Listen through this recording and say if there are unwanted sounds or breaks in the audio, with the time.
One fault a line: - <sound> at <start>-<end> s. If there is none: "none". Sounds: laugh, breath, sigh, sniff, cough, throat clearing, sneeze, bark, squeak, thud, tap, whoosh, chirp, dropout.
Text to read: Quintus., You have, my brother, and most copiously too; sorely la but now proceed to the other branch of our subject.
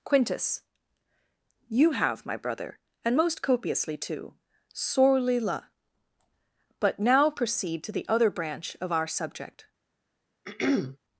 - throat clearing at 10.4-11.0 s